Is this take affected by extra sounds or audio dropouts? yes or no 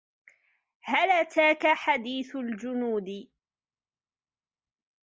no